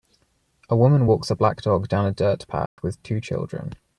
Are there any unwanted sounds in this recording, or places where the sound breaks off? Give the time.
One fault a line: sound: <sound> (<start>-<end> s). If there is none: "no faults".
sound: dropout (2.7-2.8 s)